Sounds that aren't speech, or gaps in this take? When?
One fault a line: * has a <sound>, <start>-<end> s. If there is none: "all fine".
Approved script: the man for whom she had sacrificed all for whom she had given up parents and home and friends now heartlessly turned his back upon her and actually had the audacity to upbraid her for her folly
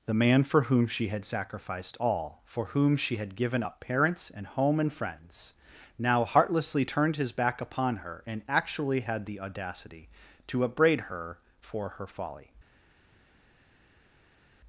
all fine